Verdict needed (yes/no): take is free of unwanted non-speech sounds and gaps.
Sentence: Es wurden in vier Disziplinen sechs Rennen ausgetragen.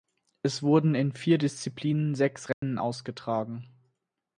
no